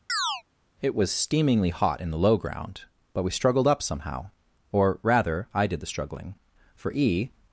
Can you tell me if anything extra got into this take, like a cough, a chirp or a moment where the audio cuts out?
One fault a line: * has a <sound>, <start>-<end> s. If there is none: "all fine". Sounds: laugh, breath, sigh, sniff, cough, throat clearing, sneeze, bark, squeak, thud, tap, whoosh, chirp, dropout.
* has a chirp, 0.1-0.4 s